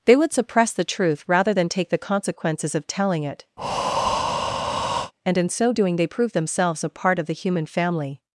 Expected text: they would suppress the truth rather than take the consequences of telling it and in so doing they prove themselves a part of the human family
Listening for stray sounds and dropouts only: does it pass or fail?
fail